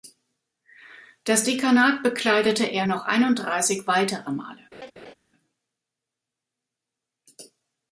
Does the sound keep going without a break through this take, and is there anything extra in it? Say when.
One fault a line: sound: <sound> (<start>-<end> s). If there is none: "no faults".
sound: laugh (4.7-5.1 s)